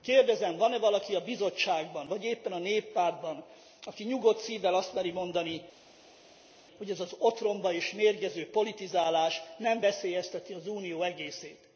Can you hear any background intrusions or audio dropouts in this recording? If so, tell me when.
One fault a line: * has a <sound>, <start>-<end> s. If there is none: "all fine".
all fine